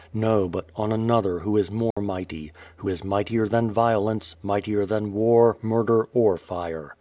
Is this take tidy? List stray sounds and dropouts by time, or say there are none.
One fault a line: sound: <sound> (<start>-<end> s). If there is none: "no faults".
sound: dropout (1.9-2.0 s)